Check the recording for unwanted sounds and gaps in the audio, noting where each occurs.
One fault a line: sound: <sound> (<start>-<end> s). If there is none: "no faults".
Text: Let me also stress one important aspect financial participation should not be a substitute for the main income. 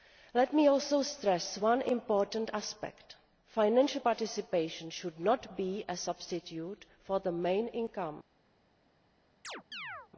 sound: chirp (9.4-10.1 s)